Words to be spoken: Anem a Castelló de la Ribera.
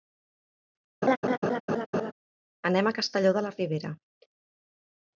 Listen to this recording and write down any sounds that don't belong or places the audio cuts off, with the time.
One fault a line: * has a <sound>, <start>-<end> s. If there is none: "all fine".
* has a laugh, 1.0-2.1 s